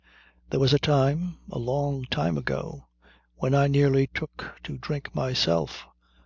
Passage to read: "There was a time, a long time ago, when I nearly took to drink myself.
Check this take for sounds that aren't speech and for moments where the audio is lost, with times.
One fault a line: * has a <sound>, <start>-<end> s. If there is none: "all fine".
all fine